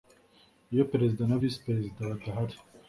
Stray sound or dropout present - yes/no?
no